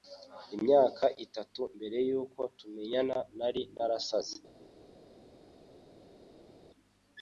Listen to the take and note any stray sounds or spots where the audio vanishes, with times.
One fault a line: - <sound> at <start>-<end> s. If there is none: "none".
none